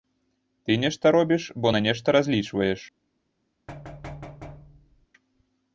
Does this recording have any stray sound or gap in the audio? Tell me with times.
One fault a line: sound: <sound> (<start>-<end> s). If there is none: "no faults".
sound: thud (3.7-5.1 s)